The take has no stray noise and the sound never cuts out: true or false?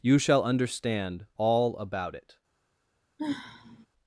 false